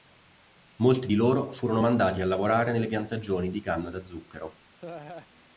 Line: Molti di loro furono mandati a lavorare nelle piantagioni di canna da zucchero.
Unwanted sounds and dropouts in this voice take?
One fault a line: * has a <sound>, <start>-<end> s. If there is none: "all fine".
* has a laugh, 4.8-5.3 s